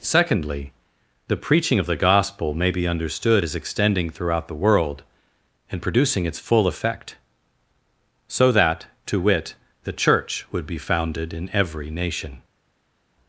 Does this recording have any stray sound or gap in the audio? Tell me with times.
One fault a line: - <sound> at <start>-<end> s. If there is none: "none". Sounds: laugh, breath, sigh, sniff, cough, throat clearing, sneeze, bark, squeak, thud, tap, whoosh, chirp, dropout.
none